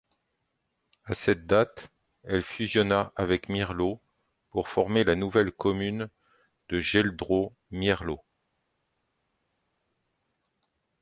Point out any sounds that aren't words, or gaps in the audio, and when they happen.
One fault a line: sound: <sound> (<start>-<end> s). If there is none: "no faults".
no faults